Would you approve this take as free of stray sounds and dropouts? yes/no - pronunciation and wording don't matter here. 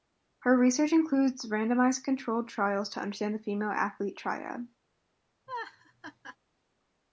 no